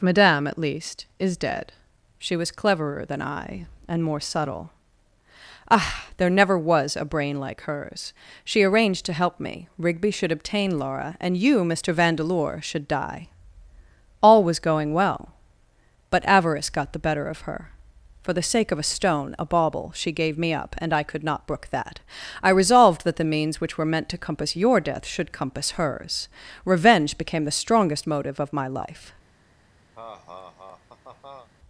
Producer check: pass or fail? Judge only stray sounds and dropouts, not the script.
fail